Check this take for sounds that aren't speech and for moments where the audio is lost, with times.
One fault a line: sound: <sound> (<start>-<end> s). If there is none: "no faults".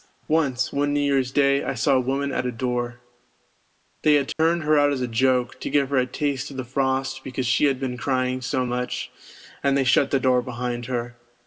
sound: dropout (4.3-4.4 s)